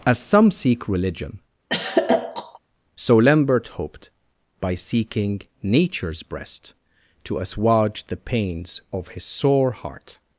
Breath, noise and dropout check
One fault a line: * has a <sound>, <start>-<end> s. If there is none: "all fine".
* has a throat clearing, 1.7-2.6 s